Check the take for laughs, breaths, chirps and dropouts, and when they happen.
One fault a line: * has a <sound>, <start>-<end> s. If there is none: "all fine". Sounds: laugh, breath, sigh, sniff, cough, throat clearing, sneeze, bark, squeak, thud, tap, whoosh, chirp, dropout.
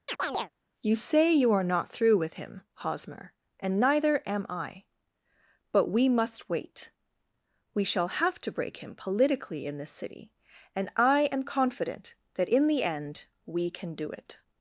* has a chirp, 0.1-0.5 s